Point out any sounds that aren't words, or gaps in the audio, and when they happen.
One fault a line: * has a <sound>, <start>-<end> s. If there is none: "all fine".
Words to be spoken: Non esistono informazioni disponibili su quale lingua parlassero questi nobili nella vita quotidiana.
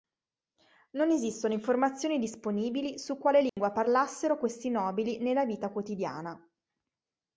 * has a dropout, 3.5-3.6 s